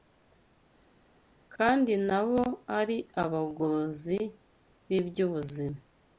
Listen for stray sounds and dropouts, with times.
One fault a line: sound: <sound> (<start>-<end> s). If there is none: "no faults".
no faults